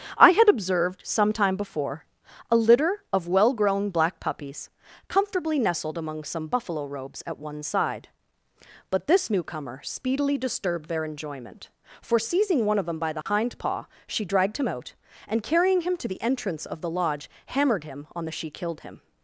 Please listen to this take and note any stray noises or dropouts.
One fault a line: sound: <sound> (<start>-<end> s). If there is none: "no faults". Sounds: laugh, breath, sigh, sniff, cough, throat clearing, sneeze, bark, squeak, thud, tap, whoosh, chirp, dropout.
sound: dropout (13.2-13.3 s)